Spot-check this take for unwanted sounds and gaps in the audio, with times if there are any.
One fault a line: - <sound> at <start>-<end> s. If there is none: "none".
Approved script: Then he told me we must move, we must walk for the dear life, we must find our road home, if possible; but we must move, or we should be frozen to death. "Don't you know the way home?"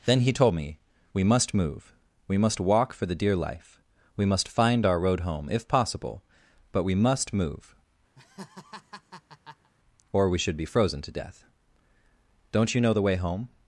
- laugh at 8.1-9.7 s